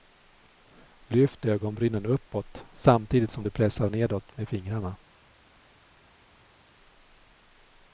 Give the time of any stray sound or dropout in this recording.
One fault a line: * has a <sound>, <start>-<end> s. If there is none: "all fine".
all fine